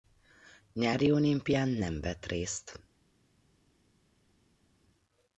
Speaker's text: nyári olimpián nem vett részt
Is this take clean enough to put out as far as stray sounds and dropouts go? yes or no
yes